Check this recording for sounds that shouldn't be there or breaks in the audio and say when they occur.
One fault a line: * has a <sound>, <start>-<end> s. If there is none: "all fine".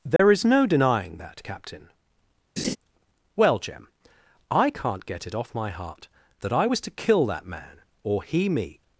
* has a dropout, 0.2-0.2 s
* has a laugh, 2.6-2.8 s